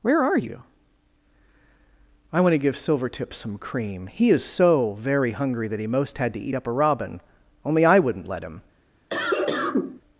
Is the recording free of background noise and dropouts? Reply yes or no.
no